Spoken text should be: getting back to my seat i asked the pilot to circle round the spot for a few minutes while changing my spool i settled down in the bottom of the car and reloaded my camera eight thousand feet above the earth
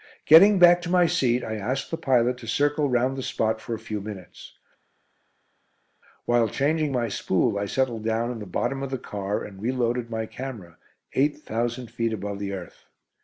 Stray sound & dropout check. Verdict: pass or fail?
pass